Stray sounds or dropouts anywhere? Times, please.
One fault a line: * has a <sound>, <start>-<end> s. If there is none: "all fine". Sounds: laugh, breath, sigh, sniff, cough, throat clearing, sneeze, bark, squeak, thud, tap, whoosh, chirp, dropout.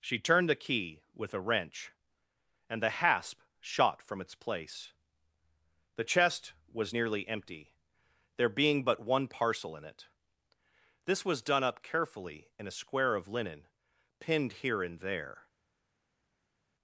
all fine